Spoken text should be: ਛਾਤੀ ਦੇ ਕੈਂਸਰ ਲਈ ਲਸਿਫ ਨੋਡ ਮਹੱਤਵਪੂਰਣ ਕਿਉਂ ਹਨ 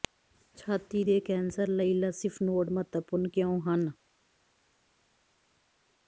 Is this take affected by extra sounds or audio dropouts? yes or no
no